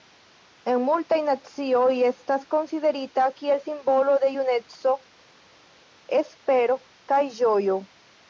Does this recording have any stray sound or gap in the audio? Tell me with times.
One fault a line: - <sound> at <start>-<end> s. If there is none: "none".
none